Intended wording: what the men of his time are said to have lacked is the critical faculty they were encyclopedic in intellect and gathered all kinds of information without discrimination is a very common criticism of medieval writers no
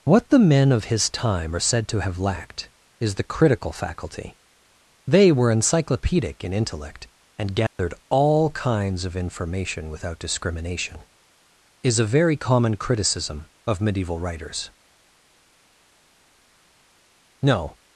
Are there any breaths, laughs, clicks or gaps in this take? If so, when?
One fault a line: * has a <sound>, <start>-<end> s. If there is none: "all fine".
* has a dropout, 7.7-7.8 s